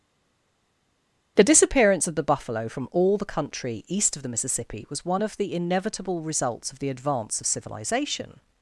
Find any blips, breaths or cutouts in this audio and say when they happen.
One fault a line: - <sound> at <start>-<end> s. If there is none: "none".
none